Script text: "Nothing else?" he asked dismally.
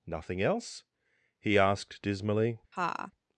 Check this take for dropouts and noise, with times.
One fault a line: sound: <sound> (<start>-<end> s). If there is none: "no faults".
sound: laugh (2.7-3.1 s)